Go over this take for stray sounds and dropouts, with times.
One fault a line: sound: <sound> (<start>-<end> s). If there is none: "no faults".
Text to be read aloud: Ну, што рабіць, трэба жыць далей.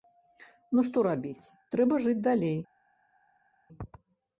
no faults